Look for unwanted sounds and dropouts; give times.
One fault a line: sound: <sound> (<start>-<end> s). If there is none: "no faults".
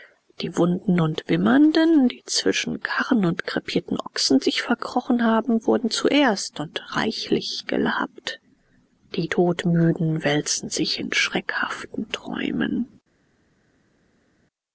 no faults